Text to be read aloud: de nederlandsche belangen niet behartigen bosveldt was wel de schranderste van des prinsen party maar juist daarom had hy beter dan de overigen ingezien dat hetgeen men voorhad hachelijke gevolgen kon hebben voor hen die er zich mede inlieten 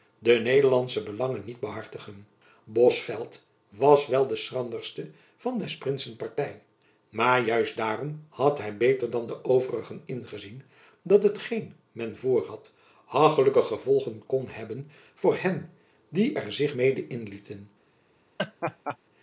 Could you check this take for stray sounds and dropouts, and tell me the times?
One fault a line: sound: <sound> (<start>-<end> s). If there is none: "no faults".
sound: laugh (18.4-19.0 s)